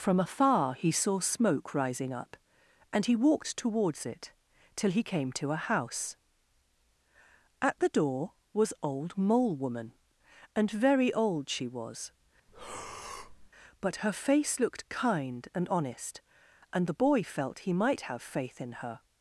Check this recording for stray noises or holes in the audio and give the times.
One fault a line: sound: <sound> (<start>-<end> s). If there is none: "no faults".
sound: breath (12.5-13.5 s)